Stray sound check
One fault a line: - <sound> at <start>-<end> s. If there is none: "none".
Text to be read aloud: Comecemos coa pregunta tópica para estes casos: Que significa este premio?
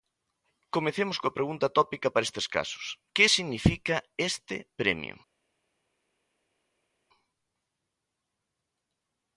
none